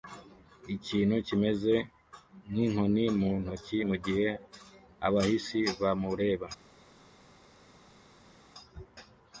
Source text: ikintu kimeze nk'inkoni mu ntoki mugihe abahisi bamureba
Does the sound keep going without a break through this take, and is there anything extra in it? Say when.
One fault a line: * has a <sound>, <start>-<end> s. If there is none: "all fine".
all fine